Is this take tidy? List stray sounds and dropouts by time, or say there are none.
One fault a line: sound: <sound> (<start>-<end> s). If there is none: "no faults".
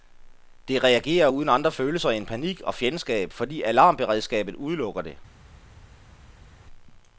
no faults